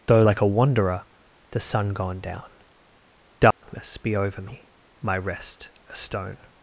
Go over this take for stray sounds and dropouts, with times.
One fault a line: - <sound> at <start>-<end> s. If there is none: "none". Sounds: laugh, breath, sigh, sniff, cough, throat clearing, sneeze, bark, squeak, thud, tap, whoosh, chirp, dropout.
- dropout at 3.5-3.6 s